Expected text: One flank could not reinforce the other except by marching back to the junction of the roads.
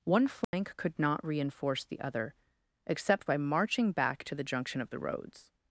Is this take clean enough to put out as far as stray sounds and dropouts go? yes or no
no